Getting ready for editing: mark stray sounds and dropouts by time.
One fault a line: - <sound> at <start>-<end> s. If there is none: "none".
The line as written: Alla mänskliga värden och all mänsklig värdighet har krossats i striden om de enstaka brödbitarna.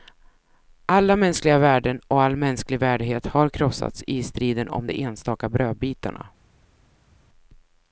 none